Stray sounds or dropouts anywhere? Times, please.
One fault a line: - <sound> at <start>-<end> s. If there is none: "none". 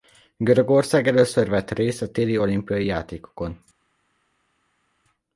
none